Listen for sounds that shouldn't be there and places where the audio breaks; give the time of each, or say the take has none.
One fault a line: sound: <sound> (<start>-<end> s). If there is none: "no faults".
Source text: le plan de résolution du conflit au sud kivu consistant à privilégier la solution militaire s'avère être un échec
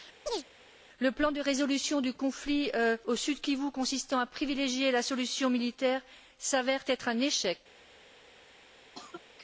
sound: chirp (0.3-0.4 s)
sound: cough (8.9-9.2 s)